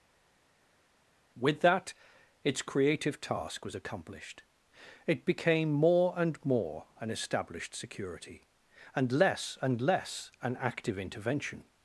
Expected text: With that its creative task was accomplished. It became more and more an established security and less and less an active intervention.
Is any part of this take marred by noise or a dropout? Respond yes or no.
no